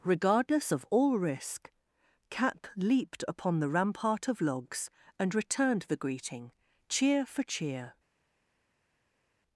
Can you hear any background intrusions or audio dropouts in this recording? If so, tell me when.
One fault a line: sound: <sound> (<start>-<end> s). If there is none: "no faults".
no faults